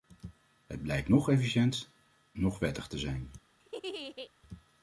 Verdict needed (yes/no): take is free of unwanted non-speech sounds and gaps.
no